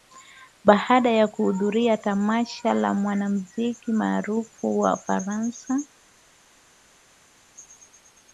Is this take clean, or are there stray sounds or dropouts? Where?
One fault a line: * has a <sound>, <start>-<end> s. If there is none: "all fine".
all fine